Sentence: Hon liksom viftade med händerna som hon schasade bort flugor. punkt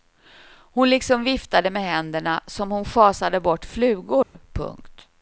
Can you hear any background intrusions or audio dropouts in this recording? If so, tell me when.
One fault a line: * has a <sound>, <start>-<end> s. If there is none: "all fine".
* has a dropout, 4.2-4.3 s